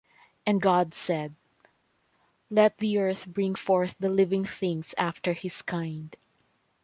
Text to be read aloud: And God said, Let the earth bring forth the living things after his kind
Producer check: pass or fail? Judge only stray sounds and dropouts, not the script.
pass